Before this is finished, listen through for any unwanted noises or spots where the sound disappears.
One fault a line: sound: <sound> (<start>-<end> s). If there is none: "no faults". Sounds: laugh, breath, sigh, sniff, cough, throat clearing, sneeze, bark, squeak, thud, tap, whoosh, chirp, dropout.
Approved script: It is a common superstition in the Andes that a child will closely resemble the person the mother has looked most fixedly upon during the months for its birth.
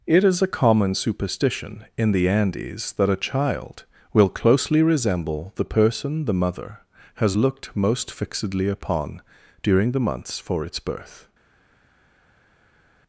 no faults